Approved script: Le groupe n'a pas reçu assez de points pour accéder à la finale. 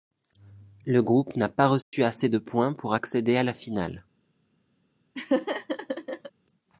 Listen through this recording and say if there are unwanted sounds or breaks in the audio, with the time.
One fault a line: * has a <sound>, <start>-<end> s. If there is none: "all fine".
* has a dropout, 1.8-1.9 s
* has a laugh, 5.1-6.3 s